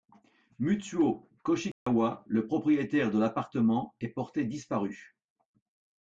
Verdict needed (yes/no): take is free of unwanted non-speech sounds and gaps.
no